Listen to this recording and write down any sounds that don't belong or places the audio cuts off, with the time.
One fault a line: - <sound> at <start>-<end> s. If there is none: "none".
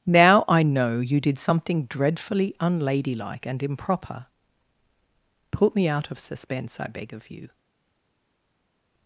none